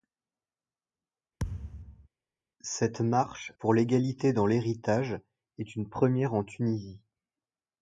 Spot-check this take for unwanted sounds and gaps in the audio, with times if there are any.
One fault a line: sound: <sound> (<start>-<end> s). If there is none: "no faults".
sound: thud (1.4-2.1 s)